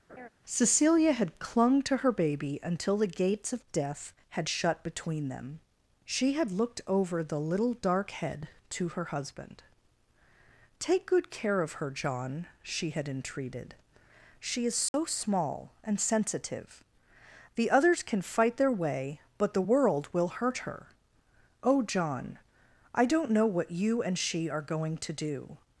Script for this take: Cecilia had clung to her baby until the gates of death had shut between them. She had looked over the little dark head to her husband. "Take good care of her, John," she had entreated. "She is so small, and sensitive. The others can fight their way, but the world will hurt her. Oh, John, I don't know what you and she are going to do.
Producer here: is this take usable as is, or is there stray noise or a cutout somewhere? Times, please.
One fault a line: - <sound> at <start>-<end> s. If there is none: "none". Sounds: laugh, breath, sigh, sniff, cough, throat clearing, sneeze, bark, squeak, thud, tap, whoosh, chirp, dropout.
- laugh at 0.1-0.3 s
- dropout at 14.9-14.9 s